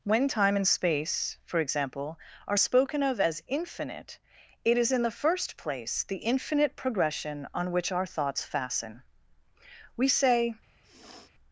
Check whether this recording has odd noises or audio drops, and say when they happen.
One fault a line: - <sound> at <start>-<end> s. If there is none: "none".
- sniff at 10.8-11.3 s